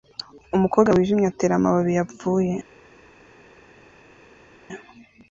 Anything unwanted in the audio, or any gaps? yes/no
no